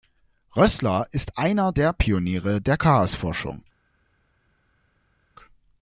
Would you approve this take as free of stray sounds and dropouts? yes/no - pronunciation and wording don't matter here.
yes